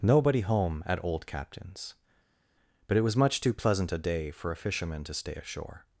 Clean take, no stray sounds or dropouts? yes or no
yes